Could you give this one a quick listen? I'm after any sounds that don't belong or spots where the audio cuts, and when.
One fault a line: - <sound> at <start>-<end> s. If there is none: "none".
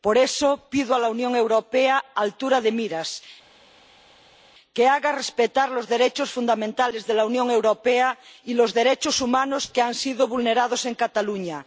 none